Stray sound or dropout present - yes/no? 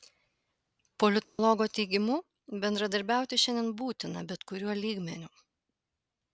yes